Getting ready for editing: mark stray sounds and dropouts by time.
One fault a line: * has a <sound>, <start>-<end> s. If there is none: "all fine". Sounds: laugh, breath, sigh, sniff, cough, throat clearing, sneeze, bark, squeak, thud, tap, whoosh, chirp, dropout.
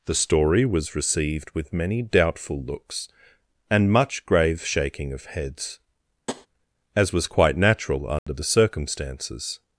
* has a tap, 6.3-6.5 s
* has a dropout, 8.2-8.3 s